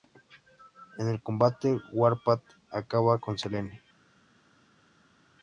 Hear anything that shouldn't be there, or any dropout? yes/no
no